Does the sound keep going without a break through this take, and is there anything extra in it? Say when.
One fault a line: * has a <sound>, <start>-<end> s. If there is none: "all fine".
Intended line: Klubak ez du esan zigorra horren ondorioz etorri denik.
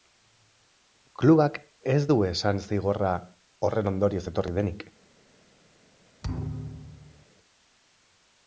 * has a thud, 6.2-7.3 s